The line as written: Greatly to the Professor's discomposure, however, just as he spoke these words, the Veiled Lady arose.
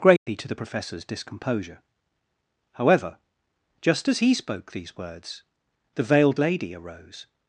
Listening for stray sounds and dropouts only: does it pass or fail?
fail